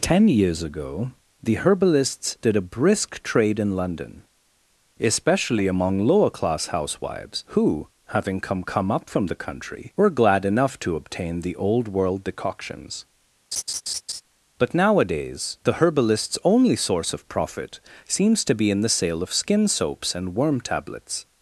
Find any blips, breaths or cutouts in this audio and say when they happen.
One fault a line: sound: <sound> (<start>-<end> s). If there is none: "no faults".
sound: laugh (13.5-14.2 s)